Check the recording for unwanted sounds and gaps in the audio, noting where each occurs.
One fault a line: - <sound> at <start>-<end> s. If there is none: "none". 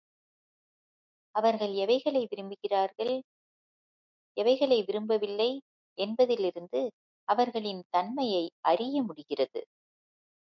none